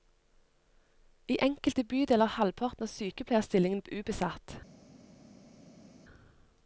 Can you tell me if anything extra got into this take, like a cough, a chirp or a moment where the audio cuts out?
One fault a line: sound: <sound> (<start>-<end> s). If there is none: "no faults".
no faults